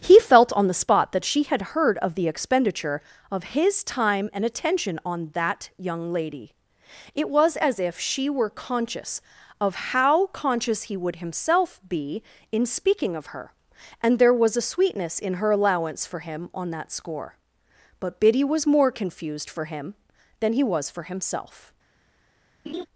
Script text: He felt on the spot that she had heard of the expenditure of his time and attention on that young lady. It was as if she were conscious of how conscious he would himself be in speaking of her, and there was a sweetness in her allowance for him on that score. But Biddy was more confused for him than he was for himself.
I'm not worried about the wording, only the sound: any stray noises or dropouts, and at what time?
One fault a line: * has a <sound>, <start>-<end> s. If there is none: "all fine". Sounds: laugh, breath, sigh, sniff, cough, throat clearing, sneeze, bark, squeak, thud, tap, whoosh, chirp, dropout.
* has a laugh, 22.7-22.9 s